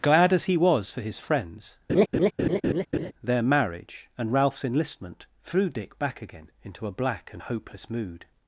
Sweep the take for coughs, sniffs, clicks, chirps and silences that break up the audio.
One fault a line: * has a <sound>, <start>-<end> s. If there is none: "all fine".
* has a laugh, 1.9-3.1 s